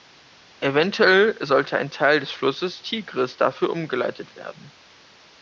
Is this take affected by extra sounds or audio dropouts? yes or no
no